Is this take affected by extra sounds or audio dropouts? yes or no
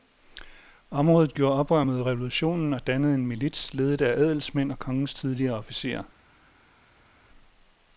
no